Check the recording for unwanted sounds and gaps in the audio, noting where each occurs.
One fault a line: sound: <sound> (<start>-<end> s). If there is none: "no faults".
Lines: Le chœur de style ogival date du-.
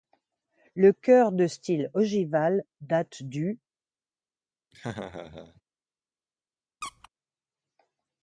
sound: laugh (4.7-5.6 s)
sound: squeak (6.8-7.1 s)